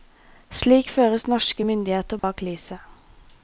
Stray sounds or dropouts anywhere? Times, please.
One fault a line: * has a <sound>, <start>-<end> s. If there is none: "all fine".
* has a dropout, 2.2-2.2 s